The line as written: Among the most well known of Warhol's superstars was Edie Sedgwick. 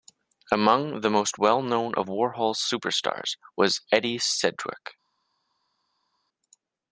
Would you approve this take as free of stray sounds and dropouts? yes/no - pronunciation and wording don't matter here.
yes